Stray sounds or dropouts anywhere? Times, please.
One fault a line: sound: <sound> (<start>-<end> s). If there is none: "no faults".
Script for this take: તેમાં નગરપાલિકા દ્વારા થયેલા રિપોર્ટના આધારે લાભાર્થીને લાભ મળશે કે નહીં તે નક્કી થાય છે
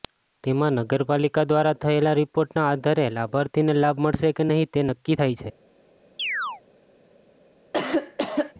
sound: chirp (6.2-6.6 s)
sound: cough (7.7-8.5 s)